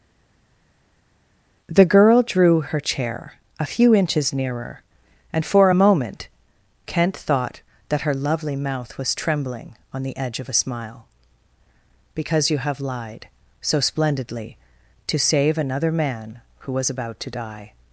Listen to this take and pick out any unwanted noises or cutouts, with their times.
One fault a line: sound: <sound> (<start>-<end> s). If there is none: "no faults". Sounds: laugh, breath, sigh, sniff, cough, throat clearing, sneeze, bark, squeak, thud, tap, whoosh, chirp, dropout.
no faults